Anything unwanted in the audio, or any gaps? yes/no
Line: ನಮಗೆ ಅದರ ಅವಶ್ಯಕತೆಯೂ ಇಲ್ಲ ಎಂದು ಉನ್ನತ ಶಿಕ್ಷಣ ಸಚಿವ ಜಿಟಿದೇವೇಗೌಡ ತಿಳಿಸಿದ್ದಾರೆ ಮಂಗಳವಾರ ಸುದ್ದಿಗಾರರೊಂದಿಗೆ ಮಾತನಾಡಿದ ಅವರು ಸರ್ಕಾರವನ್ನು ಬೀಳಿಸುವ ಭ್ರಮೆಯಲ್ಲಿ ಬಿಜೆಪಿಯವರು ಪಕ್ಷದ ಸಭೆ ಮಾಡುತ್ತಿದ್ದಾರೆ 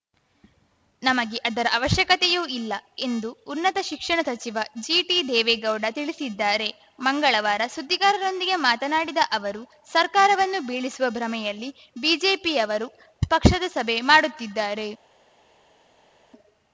no